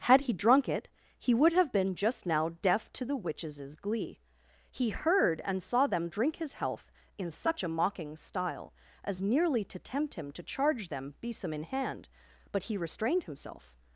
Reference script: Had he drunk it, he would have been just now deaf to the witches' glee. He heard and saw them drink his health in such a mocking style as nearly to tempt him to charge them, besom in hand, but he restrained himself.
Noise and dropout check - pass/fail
pass